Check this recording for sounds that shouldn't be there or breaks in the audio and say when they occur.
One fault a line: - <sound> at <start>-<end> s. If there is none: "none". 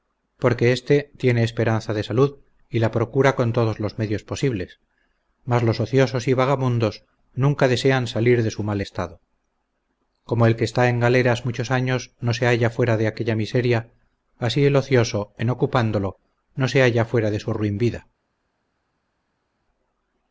none